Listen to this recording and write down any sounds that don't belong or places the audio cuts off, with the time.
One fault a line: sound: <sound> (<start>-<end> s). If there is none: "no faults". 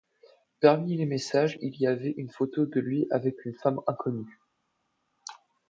no faults